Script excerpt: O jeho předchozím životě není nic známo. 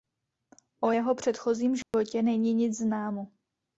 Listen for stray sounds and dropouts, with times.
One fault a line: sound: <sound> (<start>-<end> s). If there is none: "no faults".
sound: dropout (1.8-1.9 s)